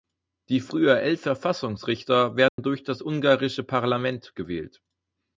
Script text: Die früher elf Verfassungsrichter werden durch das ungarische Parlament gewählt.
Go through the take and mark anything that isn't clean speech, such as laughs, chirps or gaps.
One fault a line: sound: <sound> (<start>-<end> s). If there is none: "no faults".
sound: dropout (2.5-2.6 s)